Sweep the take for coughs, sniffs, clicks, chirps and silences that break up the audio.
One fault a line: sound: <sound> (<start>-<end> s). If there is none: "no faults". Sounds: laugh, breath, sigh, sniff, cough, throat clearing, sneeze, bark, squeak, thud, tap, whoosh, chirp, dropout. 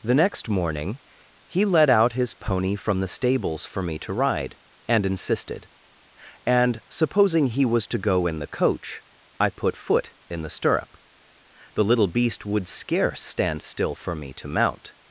no faults